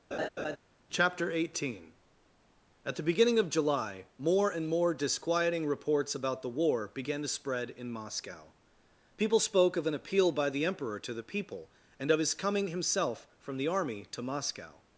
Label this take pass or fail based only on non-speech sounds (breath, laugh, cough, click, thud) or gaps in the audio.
fail